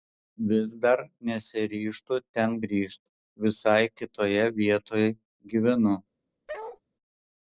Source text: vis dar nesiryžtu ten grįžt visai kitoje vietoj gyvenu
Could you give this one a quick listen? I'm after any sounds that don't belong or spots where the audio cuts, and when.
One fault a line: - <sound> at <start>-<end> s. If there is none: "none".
- bark at 6.5-6.8 s